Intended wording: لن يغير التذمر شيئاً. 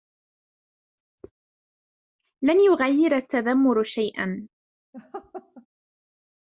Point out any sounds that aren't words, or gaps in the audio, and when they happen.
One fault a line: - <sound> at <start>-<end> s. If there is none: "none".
- laugh at 4.9-5.7 s